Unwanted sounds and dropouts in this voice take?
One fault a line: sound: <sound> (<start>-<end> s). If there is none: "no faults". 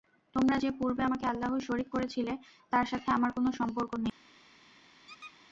sound: squeak (5.1-5.4 s)